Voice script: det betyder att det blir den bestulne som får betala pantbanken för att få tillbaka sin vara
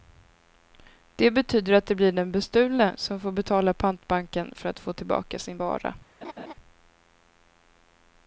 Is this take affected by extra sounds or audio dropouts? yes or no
yes